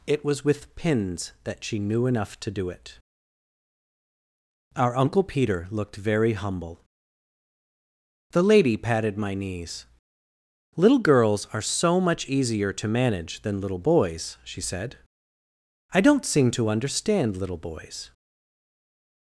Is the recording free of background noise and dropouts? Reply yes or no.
yes